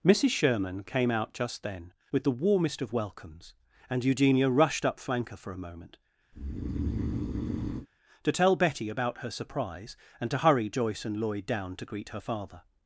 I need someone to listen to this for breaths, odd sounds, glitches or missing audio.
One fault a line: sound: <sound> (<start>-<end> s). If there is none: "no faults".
sound: breath (6.3-7.9 s)